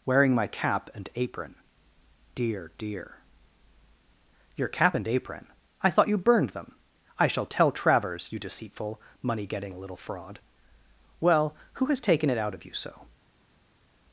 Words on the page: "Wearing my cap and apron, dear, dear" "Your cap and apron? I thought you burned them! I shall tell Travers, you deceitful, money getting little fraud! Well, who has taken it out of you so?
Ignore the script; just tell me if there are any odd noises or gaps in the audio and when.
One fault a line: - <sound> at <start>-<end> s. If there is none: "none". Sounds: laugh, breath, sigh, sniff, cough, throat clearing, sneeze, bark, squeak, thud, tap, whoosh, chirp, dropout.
none